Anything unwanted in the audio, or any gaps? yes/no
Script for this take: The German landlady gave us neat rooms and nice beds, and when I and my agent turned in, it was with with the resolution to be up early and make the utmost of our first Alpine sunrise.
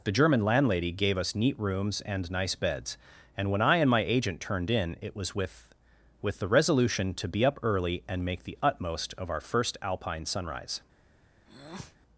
yes